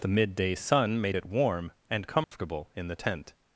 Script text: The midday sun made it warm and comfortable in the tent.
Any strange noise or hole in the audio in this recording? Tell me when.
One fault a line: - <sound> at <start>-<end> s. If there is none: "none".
- dropout at 2.2-2.3 s